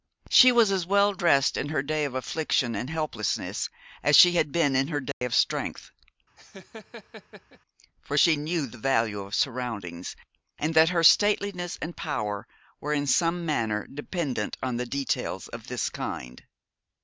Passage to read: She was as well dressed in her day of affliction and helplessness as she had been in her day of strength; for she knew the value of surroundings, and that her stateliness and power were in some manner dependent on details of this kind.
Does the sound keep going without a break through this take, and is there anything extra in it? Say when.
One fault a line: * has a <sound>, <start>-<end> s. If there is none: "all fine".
* has a dropout, 5.1-5.2 s
* has a laugh, 6.4-7.6 s